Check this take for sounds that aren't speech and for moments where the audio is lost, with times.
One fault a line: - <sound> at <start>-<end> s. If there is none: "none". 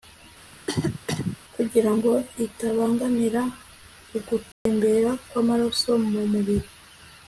- cough at 0.5-1.4 s
- dropout at 4.5-4.7 s